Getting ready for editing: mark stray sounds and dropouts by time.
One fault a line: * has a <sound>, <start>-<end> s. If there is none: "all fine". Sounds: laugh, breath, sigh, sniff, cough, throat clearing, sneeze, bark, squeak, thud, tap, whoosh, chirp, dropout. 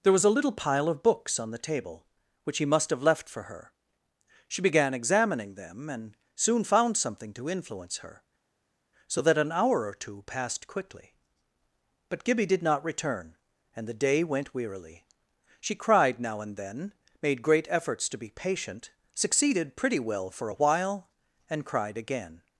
all fine